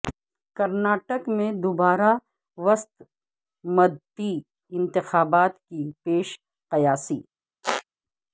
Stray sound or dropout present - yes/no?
yes